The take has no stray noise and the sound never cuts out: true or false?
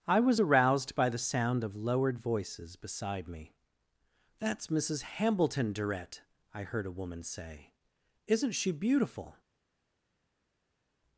true